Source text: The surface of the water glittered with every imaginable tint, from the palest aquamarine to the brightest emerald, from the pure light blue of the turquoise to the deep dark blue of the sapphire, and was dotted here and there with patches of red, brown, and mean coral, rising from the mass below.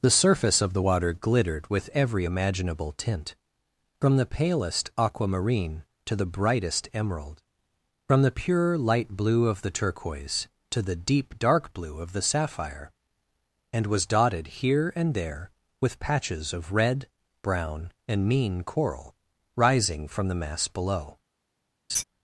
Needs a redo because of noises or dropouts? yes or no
yes